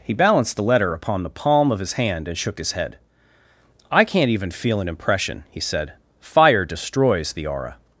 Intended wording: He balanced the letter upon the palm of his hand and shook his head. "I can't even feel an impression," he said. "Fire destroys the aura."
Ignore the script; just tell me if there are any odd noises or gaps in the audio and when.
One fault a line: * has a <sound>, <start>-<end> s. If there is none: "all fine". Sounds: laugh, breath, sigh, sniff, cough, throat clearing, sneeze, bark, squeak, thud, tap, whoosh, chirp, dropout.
all fine